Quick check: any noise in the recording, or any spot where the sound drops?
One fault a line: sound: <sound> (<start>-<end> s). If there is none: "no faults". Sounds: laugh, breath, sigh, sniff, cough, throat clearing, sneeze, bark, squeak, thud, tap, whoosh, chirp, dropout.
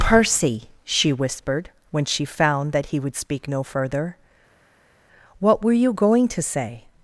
no faults